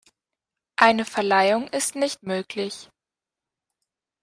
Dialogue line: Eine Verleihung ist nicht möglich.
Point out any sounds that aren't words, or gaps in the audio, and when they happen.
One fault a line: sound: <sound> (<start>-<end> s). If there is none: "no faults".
no faults